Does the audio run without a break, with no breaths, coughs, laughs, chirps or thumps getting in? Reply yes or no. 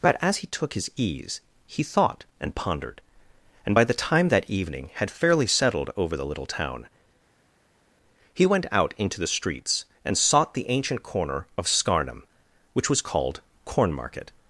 yes